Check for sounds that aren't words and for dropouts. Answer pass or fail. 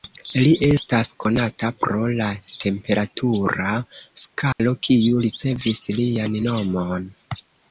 fail